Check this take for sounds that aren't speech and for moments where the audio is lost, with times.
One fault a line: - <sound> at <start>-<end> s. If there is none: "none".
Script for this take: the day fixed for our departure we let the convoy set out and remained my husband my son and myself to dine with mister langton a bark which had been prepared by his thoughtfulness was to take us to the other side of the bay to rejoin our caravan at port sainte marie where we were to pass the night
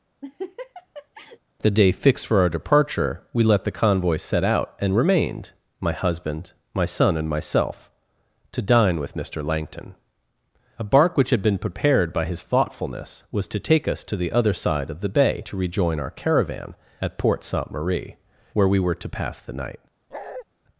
- laugh at 0.2-1.4 s
- bark at 20.1-20.4 s